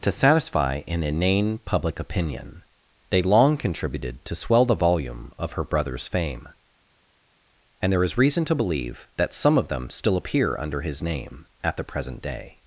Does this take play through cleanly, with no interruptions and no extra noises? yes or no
yes